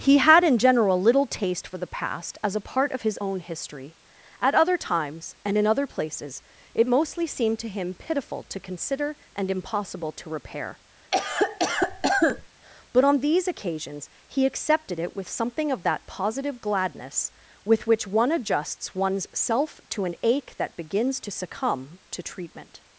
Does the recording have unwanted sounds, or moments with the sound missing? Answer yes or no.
yes